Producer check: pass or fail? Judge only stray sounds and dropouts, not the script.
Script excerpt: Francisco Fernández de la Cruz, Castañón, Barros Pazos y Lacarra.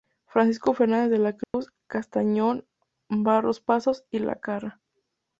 fail